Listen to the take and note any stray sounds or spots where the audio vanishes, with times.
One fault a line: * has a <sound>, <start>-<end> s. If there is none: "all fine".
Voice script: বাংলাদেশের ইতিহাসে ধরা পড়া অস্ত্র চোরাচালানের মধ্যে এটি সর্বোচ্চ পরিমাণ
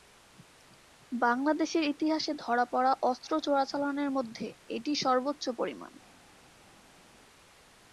all fine